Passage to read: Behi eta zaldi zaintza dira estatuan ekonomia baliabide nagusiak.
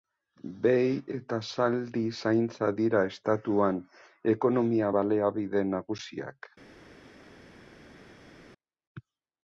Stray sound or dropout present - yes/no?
no